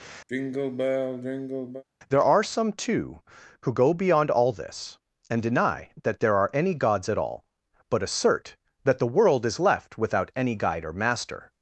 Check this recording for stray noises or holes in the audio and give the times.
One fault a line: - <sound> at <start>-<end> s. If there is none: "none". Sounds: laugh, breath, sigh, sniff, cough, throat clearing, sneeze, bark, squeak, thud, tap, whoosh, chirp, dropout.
- sigh at 0.3-1.8 s